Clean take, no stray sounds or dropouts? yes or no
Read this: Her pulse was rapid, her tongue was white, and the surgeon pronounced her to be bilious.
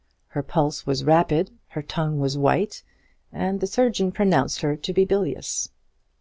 yes